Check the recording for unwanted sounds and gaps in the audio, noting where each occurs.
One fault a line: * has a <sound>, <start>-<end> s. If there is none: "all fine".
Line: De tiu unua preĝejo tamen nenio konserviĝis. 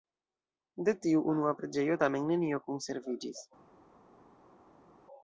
all fine